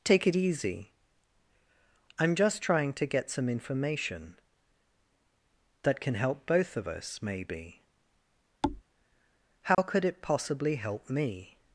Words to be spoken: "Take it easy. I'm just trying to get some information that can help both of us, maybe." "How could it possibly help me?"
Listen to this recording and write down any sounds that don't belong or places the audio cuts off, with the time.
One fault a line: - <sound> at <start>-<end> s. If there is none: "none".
- thud at 8.6-8.8 s
- dropout at 9.7-9.8 s